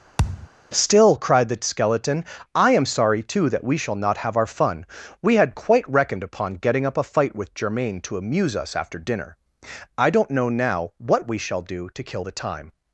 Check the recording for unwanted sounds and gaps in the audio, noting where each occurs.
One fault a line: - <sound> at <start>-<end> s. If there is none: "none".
- thud at 0.2-0.5 s